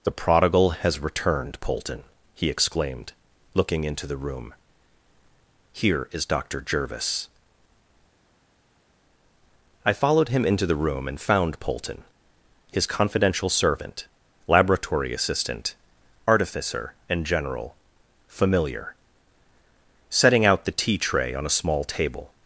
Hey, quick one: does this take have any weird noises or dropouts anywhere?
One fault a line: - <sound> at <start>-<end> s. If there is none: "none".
none